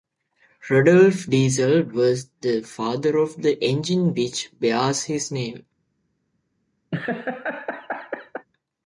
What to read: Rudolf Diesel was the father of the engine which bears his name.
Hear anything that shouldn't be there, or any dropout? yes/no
yes